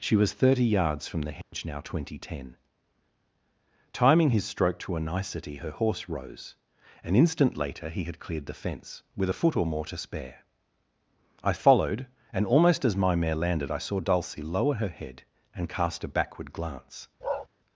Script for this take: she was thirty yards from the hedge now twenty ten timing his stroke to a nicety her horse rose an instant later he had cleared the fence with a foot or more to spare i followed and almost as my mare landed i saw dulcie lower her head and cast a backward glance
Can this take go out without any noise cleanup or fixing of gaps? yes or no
no